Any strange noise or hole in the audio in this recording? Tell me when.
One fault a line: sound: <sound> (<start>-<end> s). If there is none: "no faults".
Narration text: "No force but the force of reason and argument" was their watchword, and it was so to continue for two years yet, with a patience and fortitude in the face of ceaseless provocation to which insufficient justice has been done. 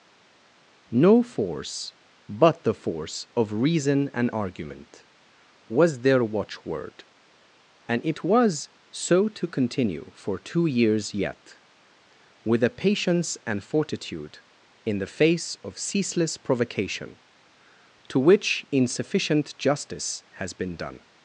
no faults